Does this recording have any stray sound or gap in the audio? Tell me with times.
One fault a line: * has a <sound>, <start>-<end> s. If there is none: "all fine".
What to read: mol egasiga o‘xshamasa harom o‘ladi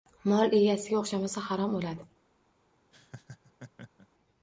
* has a laugh, 2.9-4.1 s